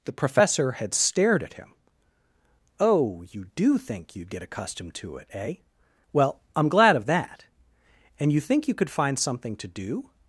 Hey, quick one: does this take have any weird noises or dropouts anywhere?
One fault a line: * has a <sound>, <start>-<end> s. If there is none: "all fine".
all fine